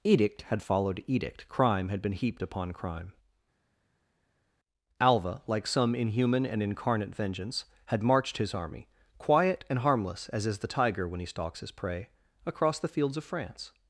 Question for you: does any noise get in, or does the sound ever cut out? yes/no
no